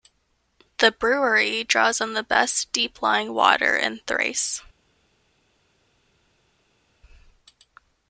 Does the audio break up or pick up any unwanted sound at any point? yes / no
no